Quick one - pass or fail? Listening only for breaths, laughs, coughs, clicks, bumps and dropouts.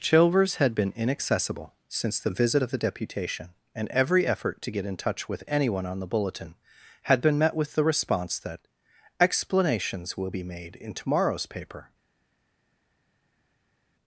pass